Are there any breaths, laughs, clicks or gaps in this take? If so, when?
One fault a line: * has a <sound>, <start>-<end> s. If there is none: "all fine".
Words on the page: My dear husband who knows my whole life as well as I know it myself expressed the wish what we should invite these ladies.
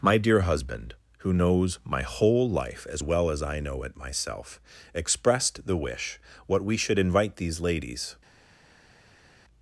all fine